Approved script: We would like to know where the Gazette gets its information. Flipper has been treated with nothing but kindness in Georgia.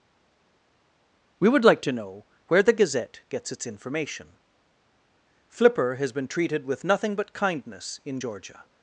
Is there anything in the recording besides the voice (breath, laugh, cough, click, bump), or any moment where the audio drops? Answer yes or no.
no